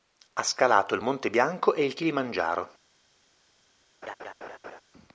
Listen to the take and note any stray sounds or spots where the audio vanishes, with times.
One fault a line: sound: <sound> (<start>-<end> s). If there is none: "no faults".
sound: laugh (4.0-4.8 s)